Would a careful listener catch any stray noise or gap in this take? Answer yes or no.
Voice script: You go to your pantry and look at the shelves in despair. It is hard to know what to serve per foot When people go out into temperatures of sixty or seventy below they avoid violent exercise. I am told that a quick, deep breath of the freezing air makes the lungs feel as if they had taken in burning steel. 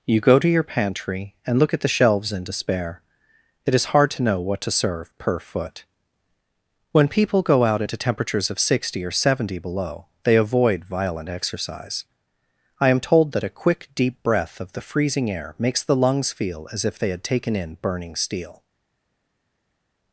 no